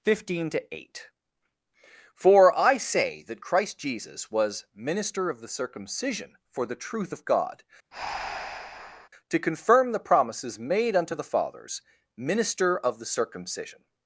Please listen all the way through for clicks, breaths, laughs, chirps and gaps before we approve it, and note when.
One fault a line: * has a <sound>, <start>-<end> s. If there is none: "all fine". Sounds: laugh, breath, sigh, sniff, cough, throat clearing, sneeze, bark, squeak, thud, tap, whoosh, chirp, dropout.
* has a breath, 7.9-9.1 s